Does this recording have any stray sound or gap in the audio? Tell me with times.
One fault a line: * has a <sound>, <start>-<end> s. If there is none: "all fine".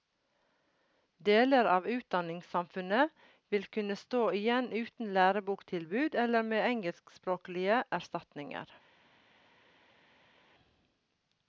all fine